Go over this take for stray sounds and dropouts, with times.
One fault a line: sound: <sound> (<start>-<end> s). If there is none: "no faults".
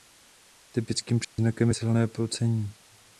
sound: dropout (1.2-1.4 s)